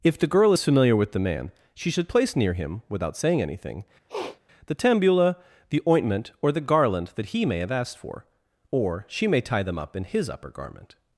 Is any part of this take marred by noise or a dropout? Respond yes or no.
yes